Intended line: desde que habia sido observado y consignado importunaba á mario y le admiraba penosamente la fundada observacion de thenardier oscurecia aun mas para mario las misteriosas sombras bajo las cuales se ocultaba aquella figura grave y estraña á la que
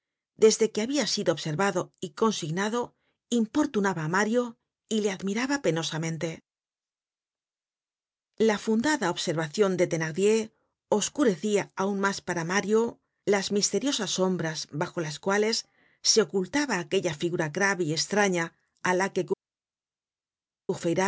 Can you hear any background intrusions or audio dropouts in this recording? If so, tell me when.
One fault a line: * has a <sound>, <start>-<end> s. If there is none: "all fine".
all fine